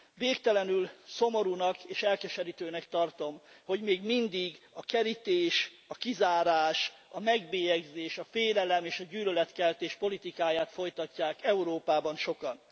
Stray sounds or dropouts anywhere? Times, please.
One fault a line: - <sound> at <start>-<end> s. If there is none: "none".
none